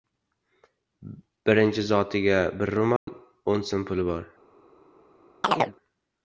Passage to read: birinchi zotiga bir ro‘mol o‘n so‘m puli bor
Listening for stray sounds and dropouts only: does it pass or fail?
fail